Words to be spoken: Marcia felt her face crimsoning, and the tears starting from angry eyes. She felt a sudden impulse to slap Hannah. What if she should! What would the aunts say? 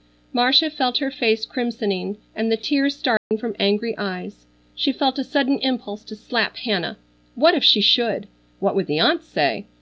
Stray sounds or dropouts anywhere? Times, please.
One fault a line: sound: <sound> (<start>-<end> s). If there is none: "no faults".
sound: dropout (3.2-3.3 s)